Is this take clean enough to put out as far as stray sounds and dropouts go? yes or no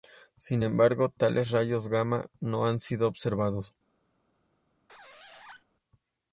no